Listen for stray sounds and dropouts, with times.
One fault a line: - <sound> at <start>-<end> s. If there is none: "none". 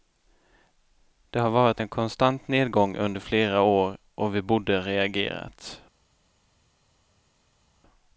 none